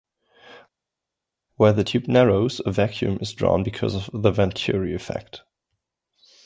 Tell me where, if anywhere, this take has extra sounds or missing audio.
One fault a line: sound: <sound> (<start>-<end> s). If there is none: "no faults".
no faults